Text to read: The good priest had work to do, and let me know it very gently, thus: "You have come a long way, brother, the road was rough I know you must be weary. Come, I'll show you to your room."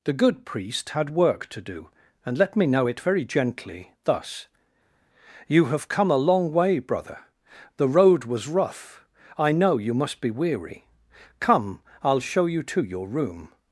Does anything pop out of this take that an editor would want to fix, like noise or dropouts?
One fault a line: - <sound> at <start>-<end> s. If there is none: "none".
none